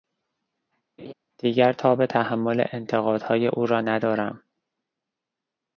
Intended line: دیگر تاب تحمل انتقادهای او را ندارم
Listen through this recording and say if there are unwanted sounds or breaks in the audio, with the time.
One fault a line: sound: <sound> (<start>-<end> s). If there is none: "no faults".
sound: laugh (1.0-1.1 s)